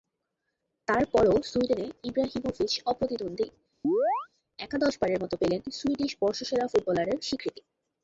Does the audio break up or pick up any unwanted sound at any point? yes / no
yes